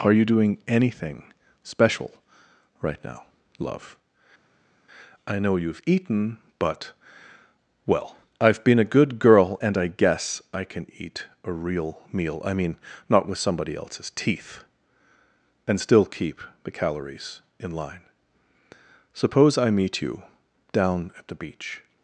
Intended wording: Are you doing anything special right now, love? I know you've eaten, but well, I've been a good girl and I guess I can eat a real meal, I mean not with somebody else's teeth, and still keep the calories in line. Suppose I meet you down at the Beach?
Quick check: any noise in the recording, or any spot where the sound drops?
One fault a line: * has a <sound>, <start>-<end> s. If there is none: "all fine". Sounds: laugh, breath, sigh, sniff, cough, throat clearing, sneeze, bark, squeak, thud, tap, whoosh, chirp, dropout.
all fine